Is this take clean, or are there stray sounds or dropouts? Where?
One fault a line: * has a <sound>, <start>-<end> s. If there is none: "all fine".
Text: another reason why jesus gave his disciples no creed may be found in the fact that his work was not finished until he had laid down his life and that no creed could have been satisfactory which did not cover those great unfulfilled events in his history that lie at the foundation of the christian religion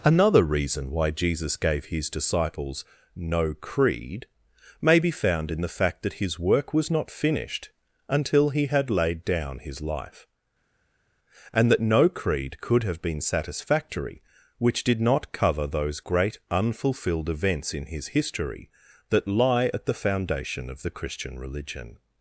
all fine